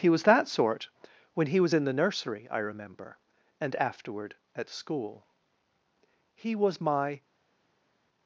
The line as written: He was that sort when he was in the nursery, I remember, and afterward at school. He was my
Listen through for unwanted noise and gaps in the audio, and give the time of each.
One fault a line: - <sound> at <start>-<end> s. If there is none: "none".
none